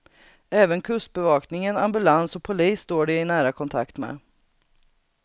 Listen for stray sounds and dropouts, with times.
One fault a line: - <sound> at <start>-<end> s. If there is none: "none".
none